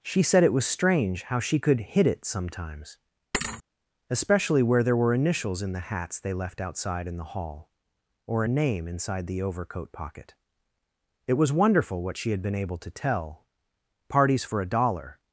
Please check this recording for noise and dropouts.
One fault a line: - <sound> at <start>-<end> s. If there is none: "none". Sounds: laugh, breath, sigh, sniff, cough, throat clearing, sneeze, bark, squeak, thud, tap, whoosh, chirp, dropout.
- thud at 3.3-3.6 s